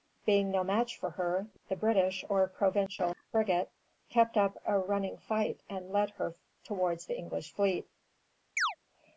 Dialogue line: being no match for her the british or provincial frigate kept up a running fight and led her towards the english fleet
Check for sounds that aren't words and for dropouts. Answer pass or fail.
fail